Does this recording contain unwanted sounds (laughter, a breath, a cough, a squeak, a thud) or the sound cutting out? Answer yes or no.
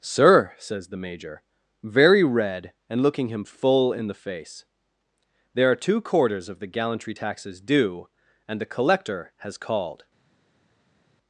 no